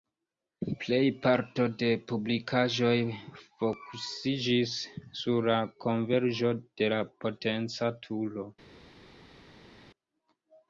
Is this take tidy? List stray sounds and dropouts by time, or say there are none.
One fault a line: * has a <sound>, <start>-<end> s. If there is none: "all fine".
all fine